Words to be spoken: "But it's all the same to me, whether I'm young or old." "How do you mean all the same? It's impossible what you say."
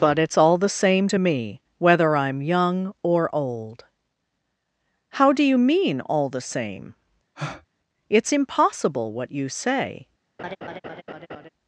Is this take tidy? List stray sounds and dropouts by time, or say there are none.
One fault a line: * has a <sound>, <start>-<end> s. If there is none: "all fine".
* has a breath, 7.4-7.7 s
* has a laugh, 10.4-11.5 s